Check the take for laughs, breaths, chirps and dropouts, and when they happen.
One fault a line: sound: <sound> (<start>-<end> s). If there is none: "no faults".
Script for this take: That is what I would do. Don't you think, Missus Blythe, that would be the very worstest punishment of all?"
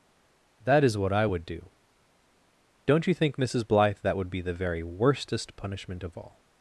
no faults